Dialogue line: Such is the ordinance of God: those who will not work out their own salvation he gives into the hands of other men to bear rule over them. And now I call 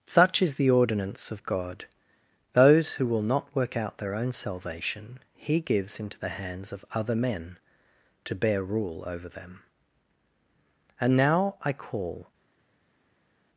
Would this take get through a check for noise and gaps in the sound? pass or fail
pass